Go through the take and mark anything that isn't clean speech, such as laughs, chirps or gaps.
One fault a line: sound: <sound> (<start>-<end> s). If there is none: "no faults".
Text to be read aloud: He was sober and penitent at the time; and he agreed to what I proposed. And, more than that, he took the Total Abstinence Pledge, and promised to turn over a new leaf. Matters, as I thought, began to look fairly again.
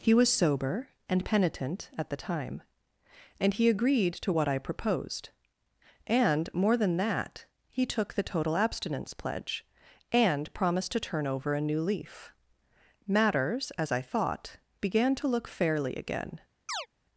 sound: chirp (16.7-16.9 s)